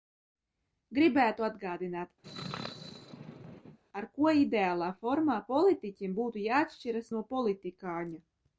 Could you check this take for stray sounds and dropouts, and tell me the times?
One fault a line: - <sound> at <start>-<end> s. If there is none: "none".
- sneeze at 2.2-3.8 s